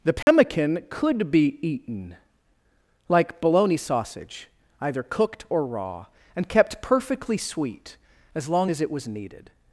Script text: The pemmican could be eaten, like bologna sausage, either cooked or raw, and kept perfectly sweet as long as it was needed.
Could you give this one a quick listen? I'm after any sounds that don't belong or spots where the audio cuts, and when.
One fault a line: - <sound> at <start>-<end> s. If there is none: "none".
- dropout at 0.2-0.3 s